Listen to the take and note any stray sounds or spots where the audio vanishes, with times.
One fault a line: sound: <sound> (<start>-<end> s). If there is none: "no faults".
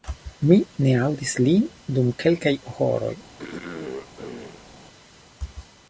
sound: throat clearing (3.4-4.7 s)